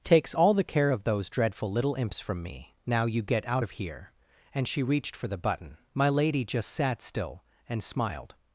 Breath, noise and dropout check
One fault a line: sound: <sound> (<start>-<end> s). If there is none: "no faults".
no faults